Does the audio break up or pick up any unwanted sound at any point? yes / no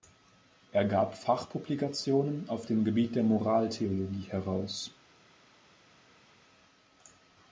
no